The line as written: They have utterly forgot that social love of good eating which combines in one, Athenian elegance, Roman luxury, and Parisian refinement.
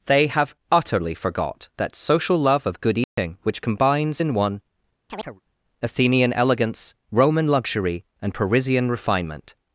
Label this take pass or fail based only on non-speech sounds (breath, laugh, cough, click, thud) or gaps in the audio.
fail